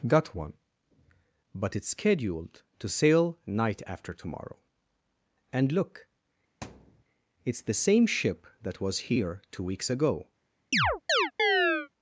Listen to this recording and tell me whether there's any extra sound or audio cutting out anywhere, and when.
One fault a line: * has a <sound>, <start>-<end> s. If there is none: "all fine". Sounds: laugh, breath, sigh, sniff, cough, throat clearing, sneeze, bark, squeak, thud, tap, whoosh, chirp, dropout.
* has a thud, 6.6-7.0 s
* has a chirp, 10.7-11.9 s